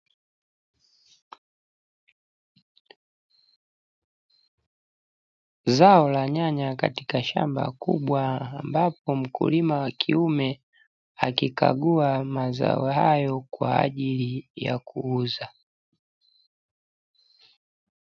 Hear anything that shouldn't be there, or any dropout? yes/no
no